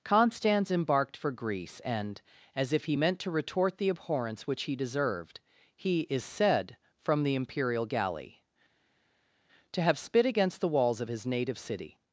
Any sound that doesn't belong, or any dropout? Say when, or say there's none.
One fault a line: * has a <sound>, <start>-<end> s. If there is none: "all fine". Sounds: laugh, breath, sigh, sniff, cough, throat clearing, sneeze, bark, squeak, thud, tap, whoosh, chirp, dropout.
all fine